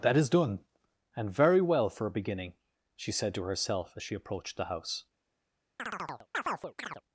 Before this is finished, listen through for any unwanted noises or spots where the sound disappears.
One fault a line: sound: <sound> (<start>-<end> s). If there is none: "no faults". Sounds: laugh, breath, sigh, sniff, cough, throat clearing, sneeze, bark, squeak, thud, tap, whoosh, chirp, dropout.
sound: chirp (5.8-7.0 s)